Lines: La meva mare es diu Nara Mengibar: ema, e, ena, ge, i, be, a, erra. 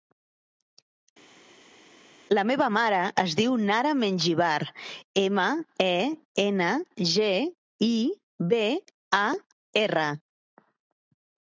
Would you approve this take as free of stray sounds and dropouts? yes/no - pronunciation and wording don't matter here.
yes